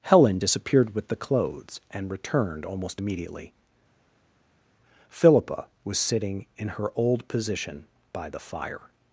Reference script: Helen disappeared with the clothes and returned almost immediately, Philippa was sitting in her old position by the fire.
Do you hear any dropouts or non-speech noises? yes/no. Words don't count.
no